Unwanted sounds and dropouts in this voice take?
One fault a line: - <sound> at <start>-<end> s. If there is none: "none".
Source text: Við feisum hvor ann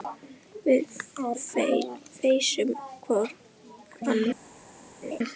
- laugh at 5.0-5.2 s